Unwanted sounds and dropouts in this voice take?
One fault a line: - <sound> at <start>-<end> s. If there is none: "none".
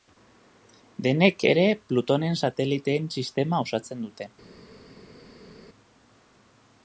none